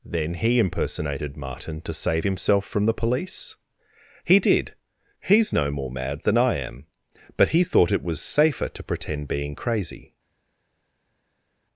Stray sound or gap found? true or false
false